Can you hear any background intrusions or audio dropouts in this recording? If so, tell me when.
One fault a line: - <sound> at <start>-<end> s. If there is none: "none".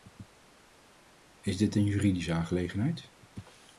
none